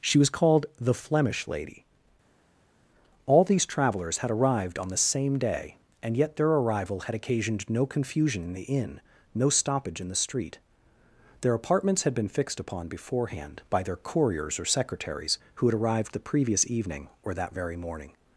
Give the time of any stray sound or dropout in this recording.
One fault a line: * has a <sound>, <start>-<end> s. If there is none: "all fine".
all fine